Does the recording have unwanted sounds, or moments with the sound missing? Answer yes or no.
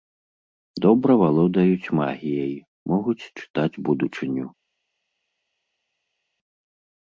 no